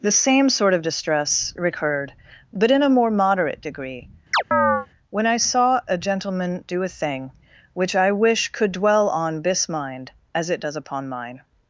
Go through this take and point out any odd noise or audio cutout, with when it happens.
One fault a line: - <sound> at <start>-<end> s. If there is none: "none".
- chirp at 4.3-4.9 s